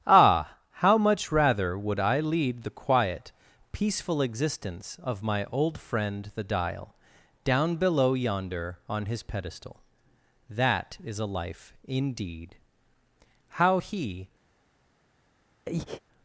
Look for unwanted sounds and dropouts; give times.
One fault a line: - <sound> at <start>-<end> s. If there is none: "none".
- breath at 15.7-16.0 s